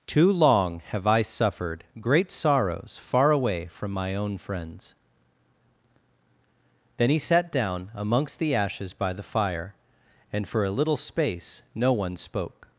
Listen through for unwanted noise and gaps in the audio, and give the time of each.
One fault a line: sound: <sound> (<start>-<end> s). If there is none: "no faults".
no faults